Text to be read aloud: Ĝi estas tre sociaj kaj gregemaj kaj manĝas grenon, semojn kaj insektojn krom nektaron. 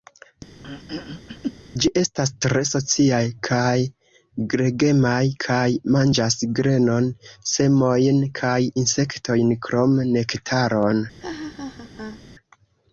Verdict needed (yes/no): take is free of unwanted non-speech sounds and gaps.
no